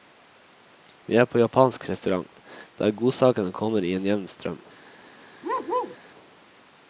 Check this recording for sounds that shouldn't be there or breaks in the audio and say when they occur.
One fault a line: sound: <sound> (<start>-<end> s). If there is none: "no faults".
sound: bark (5.4-6.0 s)